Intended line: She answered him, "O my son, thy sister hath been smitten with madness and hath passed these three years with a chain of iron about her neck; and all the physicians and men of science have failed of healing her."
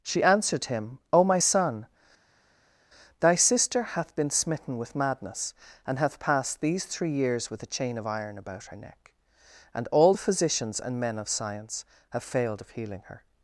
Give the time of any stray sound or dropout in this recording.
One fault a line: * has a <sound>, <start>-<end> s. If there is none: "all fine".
all fine